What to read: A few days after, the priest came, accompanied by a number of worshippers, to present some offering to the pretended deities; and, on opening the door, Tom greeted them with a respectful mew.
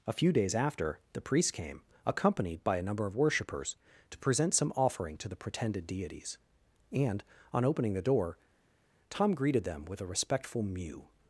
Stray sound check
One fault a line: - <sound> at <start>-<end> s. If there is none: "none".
none